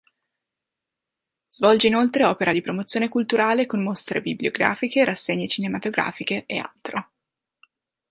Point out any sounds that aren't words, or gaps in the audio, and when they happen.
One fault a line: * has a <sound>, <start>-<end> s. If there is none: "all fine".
all fine